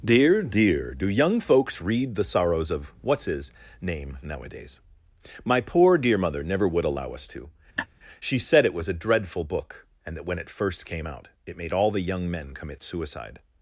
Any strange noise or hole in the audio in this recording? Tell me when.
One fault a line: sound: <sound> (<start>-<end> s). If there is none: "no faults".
sound: laugh (7.8-7.9 s)